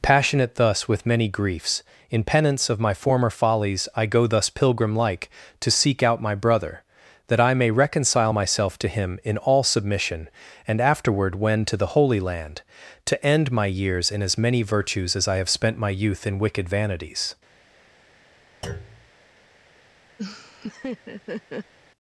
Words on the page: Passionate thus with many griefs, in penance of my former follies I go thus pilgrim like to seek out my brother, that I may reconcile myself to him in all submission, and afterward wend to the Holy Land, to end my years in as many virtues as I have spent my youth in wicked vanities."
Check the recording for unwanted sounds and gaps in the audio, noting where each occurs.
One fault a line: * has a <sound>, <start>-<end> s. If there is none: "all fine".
* has a thud, 18.6-19.1 s
* has a laugh, 20.2-21.7 s